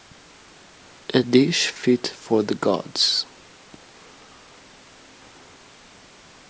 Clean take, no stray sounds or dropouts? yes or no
yes